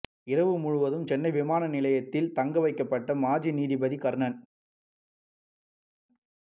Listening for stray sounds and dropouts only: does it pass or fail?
pass